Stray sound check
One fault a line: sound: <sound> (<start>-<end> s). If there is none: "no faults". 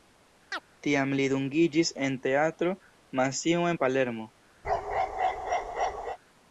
sound: chirp (0.5-0.6 s)
sound: bark (4.6-6.2 s)